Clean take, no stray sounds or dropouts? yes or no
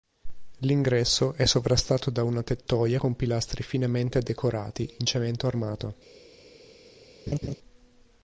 no